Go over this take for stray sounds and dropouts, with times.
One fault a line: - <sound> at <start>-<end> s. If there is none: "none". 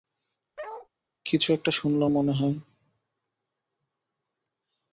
- bark at 0.6-0.9 s